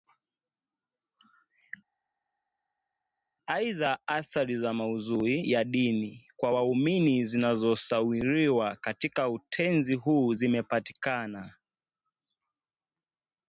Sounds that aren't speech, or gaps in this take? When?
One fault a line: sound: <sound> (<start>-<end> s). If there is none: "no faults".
no faults